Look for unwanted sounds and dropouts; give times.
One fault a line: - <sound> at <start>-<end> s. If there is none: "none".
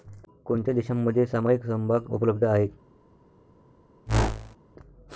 - whoosh at 4.1-4.6 s